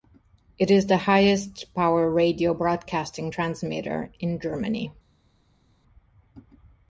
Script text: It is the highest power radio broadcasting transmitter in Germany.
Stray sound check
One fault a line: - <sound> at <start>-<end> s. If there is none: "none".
none